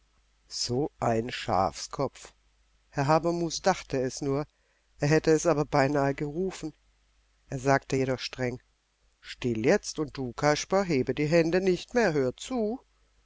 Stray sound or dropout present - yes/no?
no